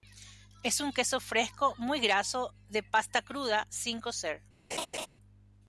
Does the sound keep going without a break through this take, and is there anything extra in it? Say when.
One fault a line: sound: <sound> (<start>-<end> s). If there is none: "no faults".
sound: laugh (4.7-5.1 s)